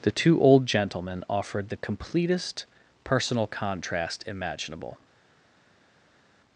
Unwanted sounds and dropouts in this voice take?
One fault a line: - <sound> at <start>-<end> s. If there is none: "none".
none